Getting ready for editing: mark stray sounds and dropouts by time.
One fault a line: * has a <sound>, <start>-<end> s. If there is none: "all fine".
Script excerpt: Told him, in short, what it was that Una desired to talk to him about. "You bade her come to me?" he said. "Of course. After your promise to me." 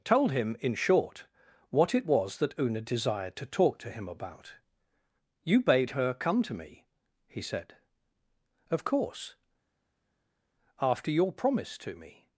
all fine